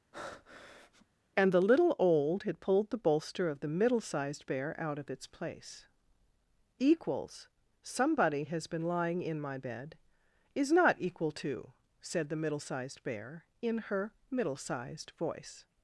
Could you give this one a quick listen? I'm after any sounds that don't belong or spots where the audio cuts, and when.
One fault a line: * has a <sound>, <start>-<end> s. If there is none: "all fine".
* has a breath, 0.1-1.1 s